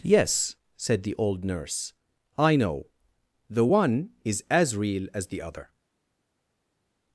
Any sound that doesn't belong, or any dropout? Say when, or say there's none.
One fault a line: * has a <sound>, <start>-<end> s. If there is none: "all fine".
all fine